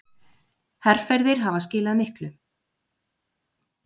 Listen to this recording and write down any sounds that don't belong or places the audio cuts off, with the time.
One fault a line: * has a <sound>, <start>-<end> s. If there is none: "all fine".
all fine